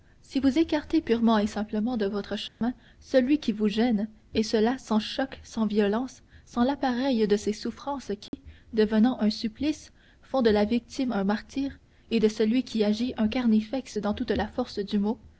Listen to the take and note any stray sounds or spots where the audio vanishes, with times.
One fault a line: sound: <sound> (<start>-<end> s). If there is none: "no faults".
sound: dropout (2.5-2.6 s)
sound: dropout (8.3-8.3 s)